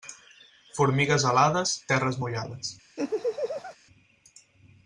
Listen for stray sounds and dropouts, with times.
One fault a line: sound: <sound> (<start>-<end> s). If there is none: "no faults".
sound: laugh (3.0-3.8 s)